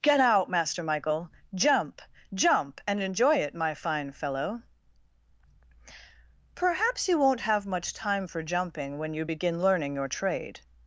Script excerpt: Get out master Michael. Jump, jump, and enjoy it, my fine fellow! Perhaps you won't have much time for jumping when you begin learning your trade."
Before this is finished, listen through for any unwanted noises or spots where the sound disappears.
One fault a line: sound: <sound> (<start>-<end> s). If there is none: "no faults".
no faults